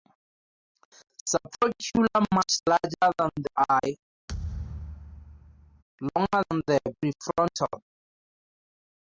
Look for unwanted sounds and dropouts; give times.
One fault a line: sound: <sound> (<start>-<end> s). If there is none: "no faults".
sound: thud (4.3-5.8 s)